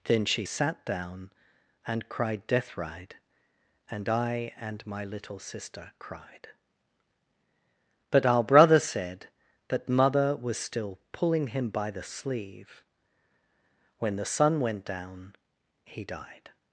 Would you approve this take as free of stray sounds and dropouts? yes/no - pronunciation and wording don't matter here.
yes